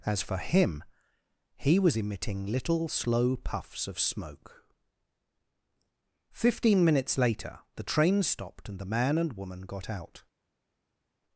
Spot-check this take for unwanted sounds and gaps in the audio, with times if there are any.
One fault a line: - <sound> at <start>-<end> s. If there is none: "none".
none